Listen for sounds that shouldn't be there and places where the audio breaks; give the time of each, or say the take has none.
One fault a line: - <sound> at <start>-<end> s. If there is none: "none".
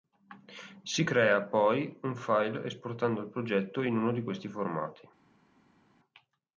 none